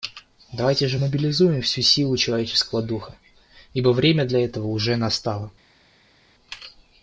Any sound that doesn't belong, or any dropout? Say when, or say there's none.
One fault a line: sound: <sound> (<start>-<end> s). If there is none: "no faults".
no faults